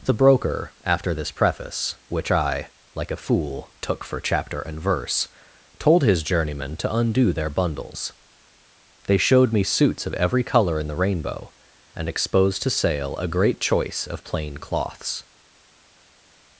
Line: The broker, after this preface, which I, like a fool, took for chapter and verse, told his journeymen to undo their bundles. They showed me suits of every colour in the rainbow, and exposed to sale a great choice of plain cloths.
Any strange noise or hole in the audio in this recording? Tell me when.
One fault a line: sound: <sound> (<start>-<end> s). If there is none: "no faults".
no faults